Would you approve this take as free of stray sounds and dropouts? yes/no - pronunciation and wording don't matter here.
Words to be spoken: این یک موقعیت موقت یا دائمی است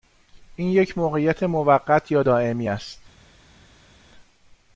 yes